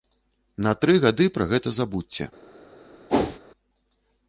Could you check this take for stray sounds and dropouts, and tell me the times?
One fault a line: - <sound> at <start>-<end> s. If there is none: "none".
- whoosh at 3.1-3.4 s